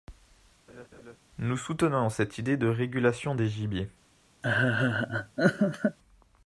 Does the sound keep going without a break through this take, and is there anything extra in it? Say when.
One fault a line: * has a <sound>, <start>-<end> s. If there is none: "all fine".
* has a laugh, 0.7-1.2 s
* has a laugh, 4.4-6.0 s